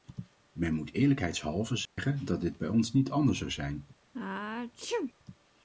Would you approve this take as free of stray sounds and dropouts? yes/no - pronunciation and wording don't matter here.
no